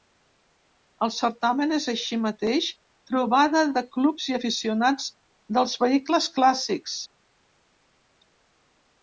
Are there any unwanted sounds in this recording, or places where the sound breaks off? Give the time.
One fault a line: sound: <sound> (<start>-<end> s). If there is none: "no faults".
no faults